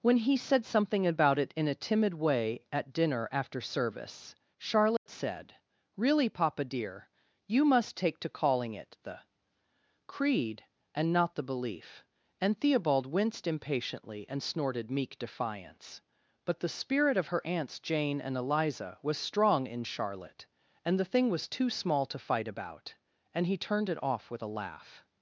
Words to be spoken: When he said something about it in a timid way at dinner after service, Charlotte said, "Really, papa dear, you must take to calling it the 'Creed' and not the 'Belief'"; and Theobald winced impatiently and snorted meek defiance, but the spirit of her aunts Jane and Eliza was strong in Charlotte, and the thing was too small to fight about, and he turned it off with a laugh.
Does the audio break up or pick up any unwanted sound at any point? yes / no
yes